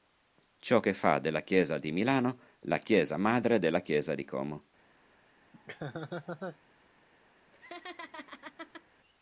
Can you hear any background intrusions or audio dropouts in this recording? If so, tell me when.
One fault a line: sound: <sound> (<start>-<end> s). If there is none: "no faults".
sound: laugh (5.5-6.6 s)
sound: laugh (7.5-8.9 s)